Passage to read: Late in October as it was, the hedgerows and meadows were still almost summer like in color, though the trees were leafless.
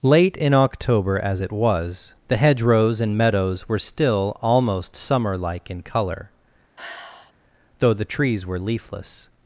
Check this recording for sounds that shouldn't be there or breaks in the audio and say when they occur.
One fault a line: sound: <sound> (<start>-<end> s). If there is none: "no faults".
sound: sigh (6.8-7.3 s)